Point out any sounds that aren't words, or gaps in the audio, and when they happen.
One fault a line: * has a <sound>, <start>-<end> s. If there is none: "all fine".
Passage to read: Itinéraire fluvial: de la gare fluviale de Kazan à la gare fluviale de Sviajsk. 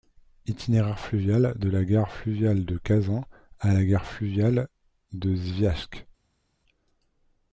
all fine